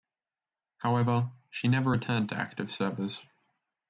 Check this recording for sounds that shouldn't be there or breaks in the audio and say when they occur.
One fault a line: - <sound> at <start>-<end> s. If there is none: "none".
none